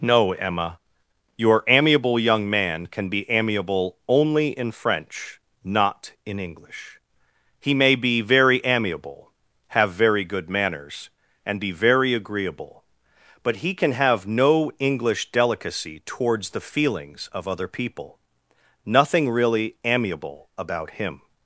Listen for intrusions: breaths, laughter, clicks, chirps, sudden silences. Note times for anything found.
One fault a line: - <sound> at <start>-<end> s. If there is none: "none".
none